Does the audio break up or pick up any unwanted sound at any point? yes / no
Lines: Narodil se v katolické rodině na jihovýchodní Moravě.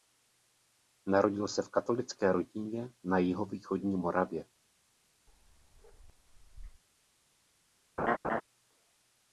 yes